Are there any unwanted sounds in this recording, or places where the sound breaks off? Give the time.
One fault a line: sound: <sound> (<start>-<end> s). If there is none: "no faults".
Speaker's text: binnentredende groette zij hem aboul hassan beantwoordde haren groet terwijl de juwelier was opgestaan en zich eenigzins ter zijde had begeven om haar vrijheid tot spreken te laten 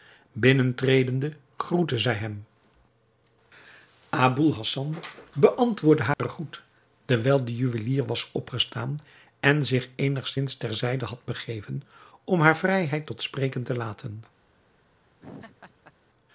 sound: dropout (6.1-6.2 s)
sound: laugh (15.2-15.9 s)